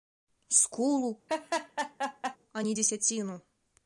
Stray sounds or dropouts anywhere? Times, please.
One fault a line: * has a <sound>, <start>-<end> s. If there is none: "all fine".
* has a laugh, 1.3-2.4 s